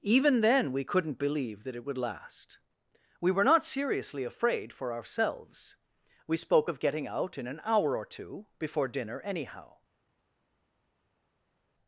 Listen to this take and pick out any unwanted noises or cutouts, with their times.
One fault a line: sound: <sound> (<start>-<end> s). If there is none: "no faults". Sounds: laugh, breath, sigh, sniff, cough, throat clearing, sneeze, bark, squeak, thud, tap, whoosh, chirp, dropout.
no faults